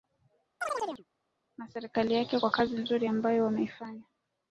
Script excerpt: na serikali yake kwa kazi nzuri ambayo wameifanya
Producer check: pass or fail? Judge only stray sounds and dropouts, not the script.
fail